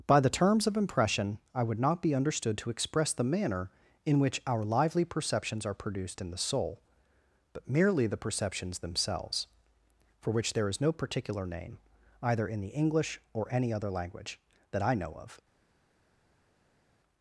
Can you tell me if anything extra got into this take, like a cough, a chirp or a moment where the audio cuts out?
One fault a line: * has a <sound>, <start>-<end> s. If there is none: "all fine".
all fine